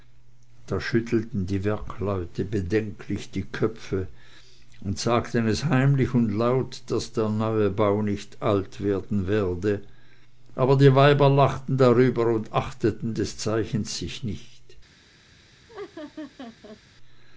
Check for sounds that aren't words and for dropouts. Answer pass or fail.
fail